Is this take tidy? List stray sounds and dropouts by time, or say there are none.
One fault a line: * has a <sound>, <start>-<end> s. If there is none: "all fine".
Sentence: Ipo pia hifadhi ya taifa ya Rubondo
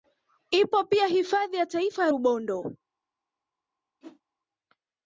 * has a whoosh, 4.0-4.2 s